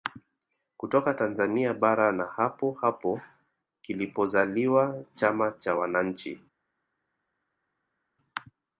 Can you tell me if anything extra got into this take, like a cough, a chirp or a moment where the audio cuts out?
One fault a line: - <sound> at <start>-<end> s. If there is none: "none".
none